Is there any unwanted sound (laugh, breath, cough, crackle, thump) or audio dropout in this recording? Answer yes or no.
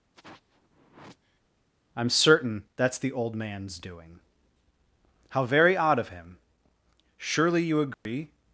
yes